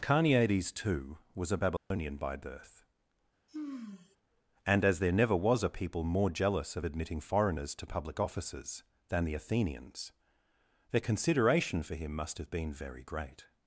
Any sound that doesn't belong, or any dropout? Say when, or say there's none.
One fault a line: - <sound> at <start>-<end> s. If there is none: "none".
- dropout at 1.8-1.9 s
- sigh at 3.5-4.2 s